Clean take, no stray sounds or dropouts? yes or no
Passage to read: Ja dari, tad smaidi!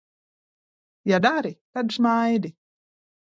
yes